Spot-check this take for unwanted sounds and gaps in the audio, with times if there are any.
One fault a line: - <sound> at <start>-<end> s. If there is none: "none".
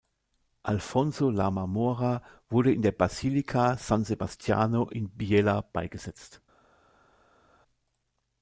none